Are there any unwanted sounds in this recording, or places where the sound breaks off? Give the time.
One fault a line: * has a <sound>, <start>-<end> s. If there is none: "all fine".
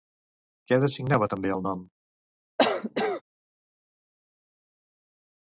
* has a cough, 2.6-3.2 s